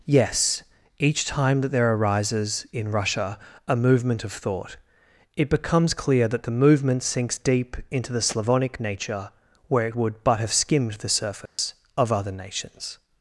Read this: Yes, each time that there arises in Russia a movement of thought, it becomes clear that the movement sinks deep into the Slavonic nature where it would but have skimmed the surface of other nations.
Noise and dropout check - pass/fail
fail